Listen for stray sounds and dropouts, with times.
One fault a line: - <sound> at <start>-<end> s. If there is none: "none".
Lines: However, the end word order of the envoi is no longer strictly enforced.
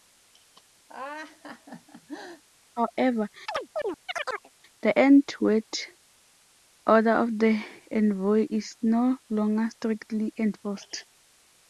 - laugh at 0.9-2.4 s
- chirp at 3.5-4.5 s